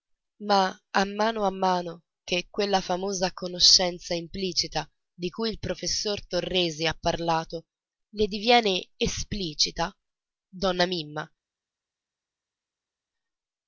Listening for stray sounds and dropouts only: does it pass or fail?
pass